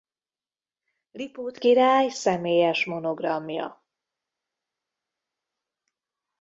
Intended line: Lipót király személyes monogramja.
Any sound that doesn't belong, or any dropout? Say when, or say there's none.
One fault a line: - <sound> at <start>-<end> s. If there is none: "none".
none